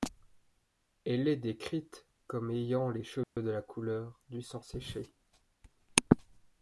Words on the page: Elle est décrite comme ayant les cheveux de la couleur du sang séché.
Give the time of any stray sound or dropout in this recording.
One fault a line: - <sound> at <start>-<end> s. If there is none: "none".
- dropout at 3.2-3.4 s